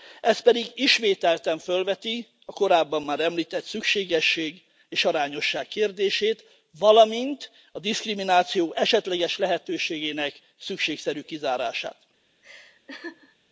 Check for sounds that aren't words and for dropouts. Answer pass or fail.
fail